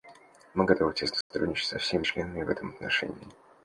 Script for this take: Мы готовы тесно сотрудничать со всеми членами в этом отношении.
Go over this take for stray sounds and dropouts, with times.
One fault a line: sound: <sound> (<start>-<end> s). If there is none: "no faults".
sound: dropout (1.2-1.3 s)